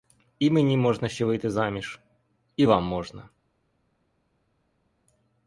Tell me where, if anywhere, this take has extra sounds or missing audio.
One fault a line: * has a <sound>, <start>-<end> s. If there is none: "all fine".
all fine